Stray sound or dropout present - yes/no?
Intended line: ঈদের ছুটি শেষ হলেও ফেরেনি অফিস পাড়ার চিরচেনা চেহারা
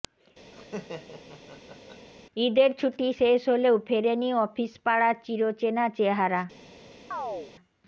yes